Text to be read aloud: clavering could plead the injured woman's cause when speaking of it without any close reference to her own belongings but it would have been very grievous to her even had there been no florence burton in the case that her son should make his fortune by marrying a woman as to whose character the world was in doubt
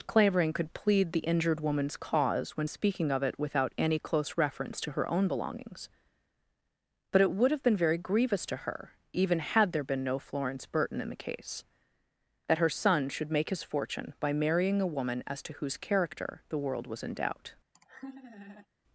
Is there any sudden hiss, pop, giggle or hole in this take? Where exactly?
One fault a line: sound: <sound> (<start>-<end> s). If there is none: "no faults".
sound: laugh (17.7-18.7 s)